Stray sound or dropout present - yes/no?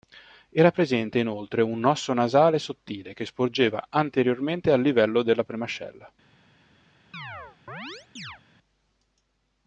yes